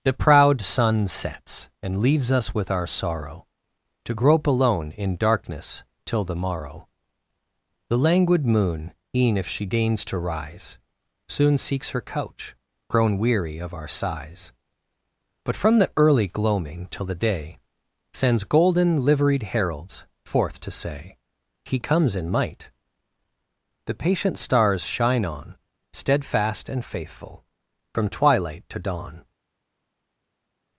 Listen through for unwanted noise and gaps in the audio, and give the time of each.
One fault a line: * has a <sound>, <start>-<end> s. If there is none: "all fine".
all fine